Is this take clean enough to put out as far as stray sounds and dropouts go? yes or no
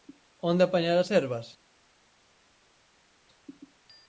yes